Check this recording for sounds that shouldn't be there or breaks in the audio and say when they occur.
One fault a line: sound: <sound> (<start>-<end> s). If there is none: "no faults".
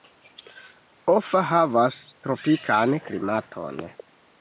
no faults